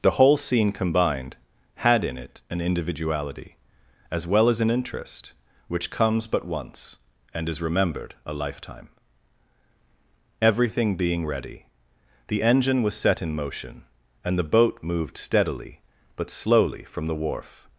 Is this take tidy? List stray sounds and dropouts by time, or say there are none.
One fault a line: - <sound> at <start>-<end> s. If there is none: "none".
none